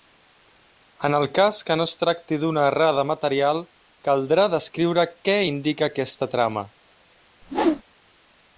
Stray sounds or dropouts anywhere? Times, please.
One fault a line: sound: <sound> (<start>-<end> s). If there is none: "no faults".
sound: whoosh (7.4-7.8 s)